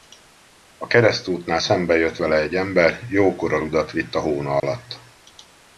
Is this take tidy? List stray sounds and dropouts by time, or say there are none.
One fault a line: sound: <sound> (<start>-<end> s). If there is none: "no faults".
sound: dropout (4.6-4.6 s)